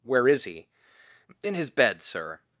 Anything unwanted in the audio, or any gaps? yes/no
no